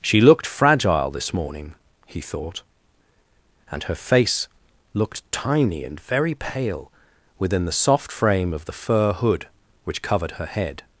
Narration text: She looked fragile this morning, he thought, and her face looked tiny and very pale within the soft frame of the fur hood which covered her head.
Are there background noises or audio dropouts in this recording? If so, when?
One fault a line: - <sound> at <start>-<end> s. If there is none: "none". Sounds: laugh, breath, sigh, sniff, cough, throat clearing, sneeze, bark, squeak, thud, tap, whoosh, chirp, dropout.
none